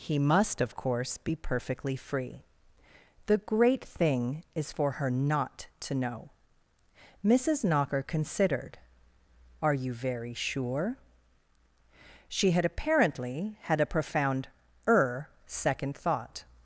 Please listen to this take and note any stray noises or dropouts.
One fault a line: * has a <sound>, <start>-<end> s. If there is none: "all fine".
all fine